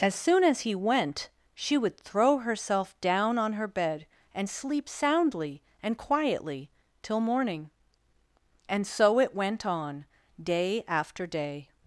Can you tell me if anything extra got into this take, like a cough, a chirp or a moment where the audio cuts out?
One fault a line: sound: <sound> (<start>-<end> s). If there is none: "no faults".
no faults